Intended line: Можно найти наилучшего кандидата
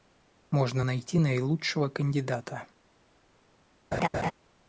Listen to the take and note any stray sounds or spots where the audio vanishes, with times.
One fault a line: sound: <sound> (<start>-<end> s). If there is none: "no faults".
sound: laugh (3.9-4.3 s)